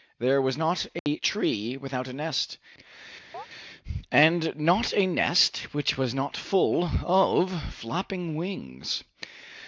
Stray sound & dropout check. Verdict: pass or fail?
fail